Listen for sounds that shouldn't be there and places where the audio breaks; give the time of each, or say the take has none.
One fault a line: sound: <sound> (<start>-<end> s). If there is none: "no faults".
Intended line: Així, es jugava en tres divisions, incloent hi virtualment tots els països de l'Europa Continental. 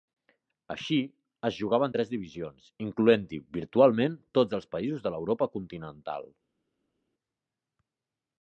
no faults